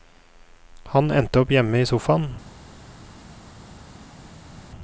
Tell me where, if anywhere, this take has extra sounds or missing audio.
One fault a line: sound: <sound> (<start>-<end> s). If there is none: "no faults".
no faults